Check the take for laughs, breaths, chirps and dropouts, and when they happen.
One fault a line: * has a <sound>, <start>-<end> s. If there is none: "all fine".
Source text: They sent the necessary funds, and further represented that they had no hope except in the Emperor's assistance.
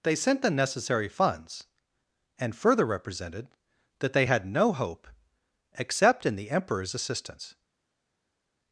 all fine